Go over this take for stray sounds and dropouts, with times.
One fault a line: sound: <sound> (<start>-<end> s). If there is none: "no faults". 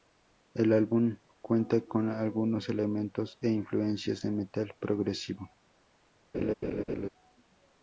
sound: laugh (6.3-7.1 s)